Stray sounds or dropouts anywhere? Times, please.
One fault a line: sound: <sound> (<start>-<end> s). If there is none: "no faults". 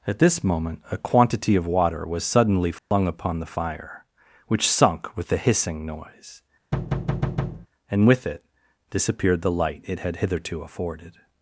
sound: dropout (2.8-2.9 s)
sound: thud (6.7-7.7 s)